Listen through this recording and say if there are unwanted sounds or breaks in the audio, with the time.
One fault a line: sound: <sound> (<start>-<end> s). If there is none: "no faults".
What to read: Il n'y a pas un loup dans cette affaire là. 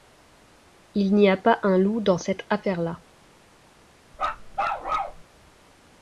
sound: bark (4.1-5.2 s)